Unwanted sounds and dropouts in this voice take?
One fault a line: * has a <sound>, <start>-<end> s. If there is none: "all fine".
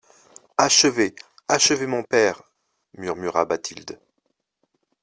all fine